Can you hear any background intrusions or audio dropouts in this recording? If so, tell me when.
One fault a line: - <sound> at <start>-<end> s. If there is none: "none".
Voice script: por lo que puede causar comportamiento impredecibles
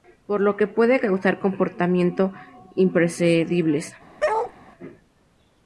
- bark at 4.2-4.5 s